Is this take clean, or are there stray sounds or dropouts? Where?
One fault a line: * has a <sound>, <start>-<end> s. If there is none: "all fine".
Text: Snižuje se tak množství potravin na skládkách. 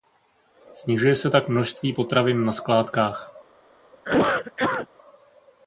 * has a cough, 3.9-4.9 s